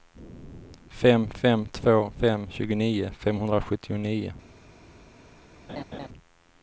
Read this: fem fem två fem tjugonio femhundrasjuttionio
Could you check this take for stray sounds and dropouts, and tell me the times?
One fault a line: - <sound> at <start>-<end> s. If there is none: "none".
- laugh at 5.7-6.1 s